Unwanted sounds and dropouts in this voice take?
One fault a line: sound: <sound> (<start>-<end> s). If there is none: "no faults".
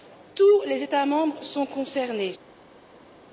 no faults